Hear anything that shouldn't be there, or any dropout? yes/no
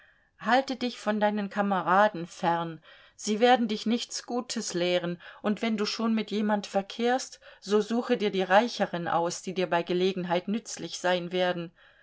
no